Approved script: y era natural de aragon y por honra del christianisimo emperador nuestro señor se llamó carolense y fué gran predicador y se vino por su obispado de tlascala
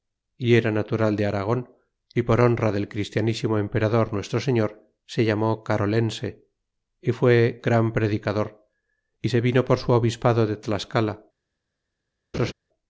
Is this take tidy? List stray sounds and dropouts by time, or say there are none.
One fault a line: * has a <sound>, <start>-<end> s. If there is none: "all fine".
* has a laugh, 12.3-12.5 s